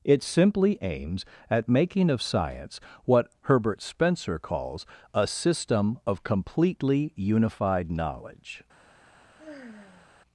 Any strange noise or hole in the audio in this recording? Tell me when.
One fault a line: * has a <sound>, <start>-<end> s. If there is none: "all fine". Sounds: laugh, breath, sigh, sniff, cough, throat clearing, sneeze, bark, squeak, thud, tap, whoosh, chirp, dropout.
* has a sigh, 9.4-10.1 s